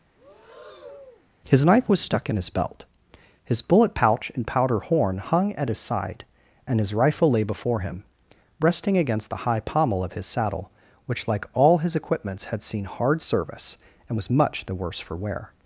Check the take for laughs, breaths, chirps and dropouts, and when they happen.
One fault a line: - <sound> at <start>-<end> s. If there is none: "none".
- breath at 0.1-1.3 s